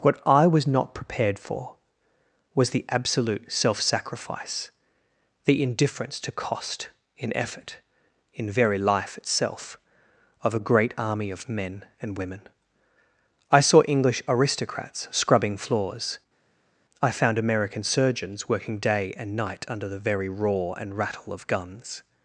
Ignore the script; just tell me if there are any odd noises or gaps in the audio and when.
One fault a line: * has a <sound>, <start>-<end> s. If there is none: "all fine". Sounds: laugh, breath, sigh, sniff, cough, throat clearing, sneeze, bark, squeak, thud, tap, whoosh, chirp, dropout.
all fine